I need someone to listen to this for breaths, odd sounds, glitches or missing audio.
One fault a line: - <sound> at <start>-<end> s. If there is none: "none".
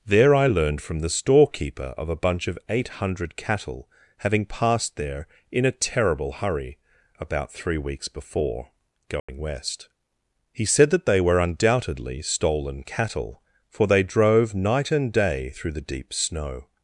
- dropout at 9.2-9.3 s